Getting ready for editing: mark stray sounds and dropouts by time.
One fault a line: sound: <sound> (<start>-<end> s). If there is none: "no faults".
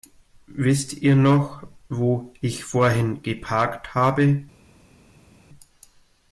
no faults